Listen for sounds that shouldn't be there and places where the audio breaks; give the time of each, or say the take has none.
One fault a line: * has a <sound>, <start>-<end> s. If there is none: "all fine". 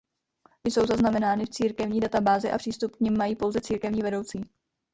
all fine